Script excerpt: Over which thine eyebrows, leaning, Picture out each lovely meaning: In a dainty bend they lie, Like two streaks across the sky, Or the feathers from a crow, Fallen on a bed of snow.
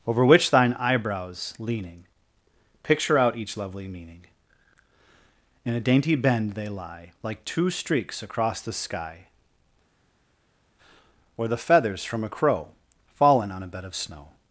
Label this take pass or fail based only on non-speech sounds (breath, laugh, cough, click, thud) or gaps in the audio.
pass